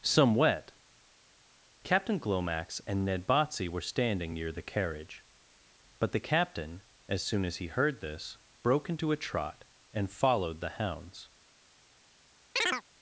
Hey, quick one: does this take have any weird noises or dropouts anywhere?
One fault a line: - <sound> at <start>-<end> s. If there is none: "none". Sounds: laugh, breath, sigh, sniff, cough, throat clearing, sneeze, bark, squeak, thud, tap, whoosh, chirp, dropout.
- chirp at 12.6-12.8 s